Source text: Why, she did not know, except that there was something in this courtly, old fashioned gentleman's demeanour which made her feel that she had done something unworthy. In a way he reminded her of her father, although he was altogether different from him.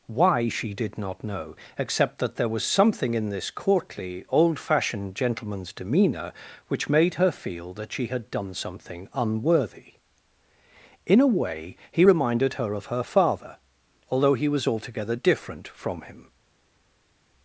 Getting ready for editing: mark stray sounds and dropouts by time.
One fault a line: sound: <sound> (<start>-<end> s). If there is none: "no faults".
no faults